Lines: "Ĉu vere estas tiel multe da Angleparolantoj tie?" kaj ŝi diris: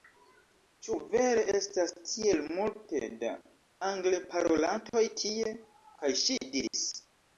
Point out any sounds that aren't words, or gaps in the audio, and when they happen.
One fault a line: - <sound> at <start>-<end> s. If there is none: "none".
- dropout at 6.7-6.7 s